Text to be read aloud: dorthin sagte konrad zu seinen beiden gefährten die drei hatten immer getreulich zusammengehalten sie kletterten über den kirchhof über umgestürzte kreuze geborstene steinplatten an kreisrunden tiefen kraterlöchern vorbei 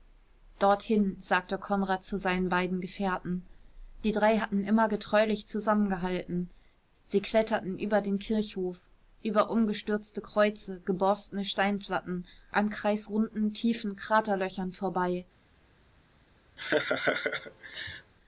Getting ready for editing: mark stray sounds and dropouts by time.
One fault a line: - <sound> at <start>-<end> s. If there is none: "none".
- laugh at 16.6-18.1 s